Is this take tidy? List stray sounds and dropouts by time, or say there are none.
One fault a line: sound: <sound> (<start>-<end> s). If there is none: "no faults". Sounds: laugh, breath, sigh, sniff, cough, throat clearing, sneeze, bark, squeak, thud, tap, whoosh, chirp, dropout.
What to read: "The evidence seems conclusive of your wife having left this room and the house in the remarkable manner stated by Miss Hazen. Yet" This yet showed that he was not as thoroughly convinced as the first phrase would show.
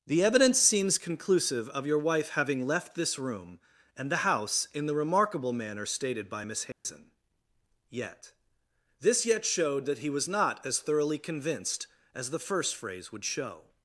sound: dropout (6.7-6.9 s)